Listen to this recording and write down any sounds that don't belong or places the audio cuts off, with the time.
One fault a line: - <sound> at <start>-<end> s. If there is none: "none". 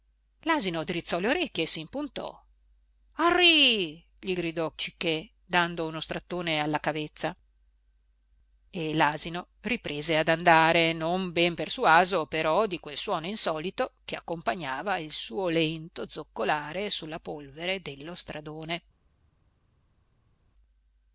none